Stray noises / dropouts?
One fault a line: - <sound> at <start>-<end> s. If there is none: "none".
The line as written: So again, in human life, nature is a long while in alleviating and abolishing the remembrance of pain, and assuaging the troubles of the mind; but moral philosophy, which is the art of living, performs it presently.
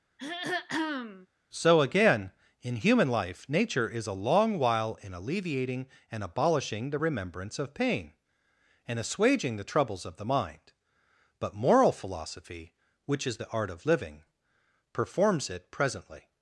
- throat clearing at 0.2-1.3 s